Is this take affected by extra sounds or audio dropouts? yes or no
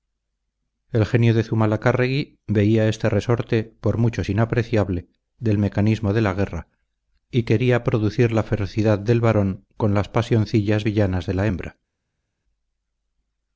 no